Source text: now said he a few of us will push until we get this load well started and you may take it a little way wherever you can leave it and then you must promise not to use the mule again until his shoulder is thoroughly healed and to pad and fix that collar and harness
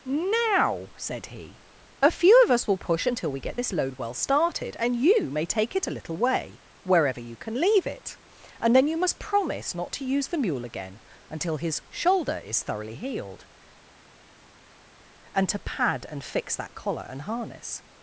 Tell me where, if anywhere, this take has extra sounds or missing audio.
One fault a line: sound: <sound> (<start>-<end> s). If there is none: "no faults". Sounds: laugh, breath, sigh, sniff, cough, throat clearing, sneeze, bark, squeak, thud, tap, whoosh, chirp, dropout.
no faults